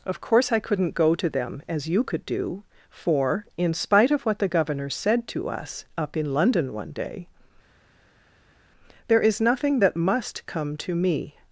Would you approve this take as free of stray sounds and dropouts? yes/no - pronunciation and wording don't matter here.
yes